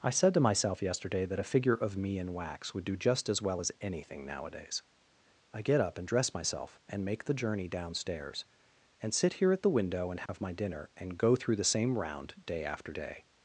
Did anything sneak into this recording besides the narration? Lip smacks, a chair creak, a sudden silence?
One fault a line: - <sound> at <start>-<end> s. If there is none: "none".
- dropout at 10.3-10.3 s